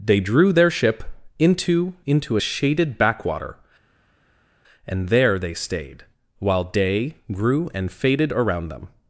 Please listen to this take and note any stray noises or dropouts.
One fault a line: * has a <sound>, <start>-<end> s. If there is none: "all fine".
all fine